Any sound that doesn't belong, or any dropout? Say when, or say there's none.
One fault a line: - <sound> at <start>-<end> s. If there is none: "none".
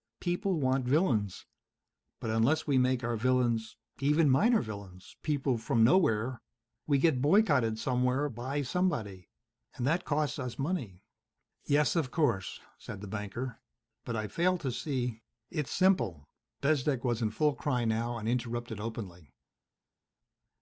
none